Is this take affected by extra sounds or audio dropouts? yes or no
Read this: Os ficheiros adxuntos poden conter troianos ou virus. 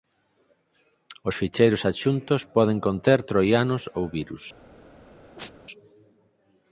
yes